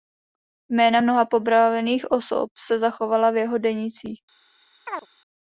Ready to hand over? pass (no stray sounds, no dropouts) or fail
fail